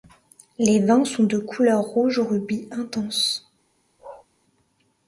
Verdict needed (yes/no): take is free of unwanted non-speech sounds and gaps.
no